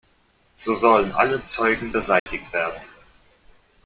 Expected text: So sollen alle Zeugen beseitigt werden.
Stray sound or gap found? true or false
true